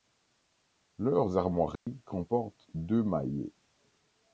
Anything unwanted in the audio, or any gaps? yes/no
yes